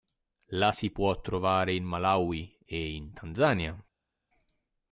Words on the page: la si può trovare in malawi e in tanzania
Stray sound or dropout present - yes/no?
no